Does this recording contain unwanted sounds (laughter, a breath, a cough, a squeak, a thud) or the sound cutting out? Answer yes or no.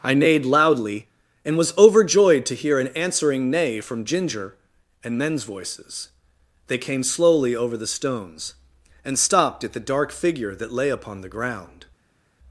no